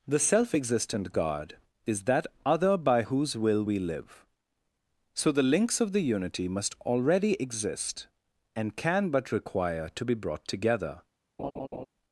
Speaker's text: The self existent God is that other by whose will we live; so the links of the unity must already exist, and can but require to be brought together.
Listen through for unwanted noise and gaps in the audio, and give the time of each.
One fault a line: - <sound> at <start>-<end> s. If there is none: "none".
- laugh at 11.4-11.9 s